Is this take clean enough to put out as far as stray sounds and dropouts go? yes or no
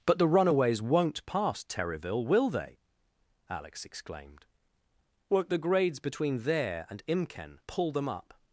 yes